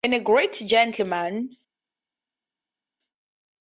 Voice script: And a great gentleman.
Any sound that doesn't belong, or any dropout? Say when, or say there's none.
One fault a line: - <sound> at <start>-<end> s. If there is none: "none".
none